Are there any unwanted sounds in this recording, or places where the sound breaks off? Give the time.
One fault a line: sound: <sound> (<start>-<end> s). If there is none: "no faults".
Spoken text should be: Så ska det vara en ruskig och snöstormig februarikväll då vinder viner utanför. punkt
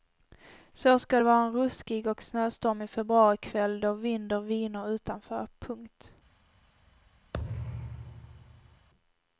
sound: thud (7.3-8.9 s)